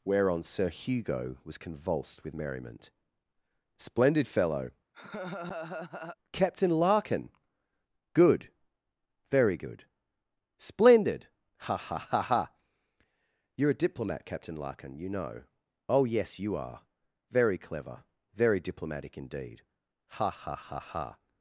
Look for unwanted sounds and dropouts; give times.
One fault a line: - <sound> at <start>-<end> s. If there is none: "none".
- laugh at 4.9-6.2 s